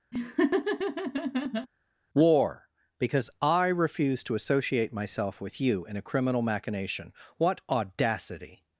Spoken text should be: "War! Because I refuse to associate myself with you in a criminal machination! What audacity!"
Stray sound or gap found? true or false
true